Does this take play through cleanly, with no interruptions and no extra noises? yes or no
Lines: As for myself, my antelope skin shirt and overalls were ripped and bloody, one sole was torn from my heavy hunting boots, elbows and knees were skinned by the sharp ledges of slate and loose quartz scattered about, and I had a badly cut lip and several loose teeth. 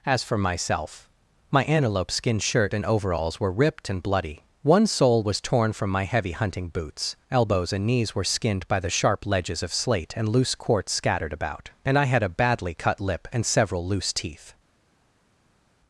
yes